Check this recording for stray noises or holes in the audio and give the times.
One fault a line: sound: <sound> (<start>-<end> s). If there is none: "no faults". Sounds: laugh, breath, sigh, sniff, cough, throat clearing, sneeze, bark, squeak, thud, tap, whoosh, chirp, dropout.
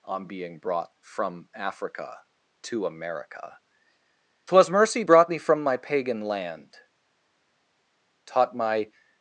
no faults